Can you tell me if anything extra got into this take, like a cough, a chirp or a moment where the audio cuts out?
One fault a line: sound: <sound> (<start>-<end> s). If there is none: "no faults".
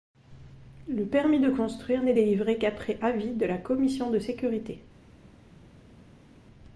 no faults